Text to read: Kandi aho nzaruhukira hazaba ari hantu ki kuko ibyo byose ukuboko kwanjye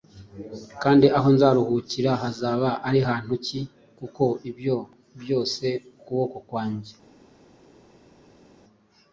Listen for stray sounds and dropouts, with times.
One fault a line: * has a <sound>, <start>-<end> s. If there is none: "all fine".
all fine